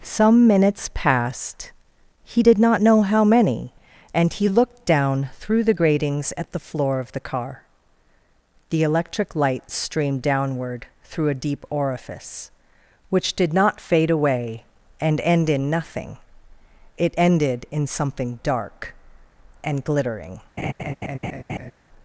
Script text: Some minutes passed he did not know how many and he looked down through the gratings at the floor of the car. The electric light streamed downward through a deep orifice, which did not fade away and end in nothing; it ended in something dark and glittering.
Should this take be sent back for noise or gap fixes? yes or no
yes